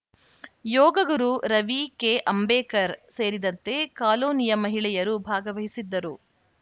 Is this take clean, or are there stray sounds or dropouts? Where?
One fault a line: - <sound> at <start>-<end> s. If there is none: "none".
none